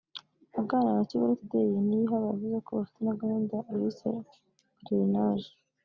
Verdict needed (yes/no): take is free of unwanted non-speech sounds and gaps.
yes